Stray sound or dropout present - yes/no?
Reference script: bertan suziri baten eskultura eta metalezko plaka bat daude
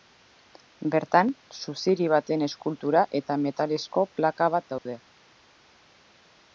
yes